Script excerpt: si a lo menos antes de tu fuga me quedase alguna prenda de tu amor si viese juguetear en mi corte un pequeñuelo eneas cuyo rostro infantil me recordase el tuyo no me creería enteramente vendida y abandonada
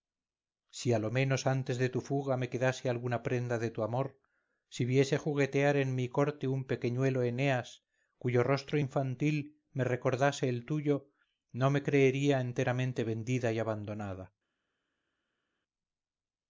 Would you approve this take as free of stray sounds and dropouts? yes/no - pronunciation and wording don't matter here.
yes